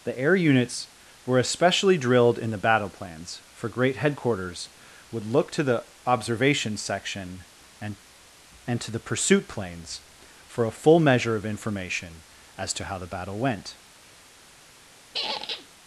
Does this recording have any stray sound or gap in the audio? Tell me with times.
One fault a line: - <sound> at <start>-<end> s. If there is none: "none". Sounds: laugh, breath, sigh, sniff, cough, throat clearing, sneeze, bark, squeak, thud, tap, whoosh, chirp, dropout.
- squeak at 15.1-15.7 s